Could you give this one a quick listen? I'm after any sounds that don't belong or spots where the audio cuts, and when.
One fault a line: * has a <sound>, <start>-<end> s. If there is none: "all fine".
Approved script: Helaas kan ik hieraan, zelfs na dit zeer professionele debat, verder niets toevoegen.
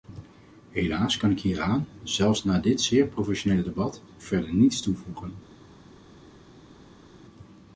all fine